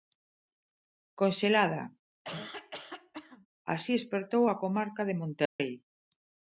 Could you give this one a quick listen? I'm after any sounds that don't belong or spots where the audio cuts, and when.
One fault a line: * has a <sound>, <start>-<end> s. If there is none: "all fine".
* has a cough, 2.2-3.5 s
* has a dropout, 5.5-5.6 s